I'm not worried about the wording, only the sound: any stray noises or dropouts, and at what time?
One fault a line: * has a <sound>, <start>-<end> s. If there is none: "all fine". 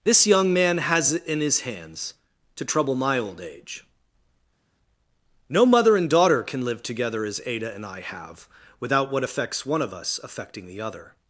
all fine